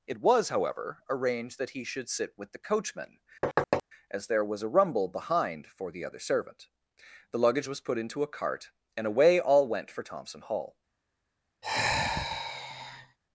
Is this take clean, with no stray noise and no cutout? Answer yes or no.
no